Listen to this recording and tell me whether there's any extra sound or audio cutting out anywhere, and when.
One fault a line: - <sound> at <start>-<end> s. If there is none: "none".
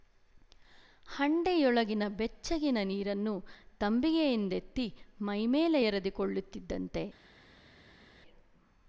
none